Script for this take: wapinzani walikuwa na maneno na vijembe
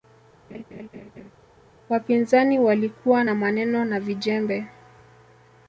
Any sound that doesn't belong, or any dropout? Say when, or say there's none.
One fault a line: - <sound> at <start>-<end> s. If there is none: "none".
- laugh at 0.5-1.3 s